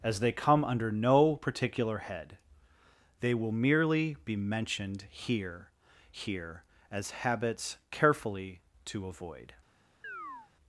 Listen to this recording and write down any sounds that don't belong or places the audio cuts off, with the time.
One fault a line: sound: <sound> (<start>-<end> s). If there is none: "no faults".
sound: chirp (10.0-10.5 s)